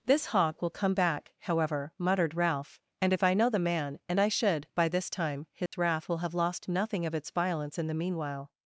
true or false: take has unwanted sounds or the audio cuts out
true